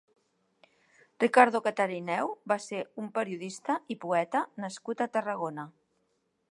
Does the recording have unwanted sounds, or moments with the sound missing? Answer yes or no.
no